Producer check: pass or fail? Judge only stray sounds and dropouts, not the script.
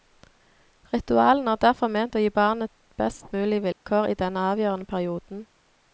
fail